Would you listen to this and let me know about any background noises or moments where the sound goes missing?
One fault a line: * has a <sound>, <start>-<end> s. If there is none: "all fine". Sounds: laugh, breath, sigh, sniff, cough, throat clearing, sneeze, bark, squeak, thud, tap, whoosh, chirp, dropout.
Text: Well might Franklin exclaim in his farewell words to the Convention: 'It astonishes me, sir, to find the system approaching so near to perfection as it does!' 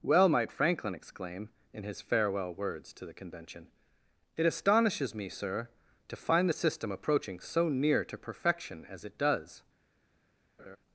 * has a laugh, 10.6-10.8 s